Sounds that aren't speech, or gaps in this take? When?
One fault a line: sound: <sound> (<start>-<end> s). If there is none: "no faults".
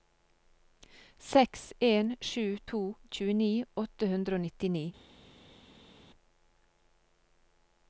no faults